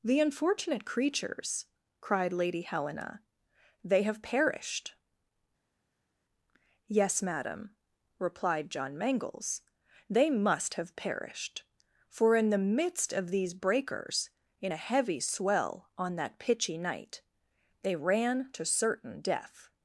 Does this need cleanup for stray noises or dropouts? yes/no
no